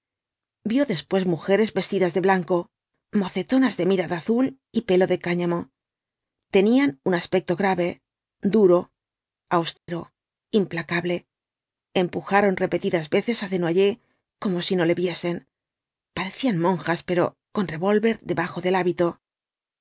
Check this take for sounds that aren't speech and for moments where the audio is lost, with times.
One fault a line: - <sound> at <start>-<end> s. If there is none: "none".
- dropout at 9.8-9.9 s